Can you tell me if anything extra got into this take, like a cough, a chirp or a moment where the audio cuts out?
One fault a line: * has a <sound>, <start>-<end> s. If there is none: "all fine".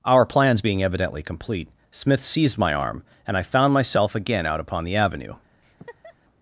* has a laugh, 5.6-6.2 s